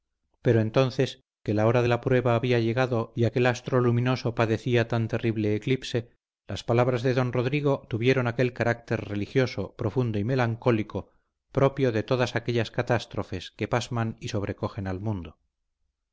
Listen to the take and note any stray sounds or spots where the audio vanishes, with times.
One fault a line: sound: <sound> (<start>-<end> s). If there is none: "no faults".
no faults